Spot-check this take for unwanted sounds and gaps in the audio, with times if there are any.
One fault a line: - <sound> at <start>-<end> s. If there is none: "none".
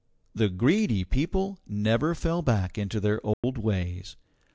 - dropout at 3.3-3.4 s